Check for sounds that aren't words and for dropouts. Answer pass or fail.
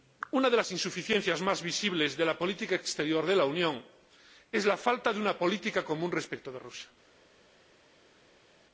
pass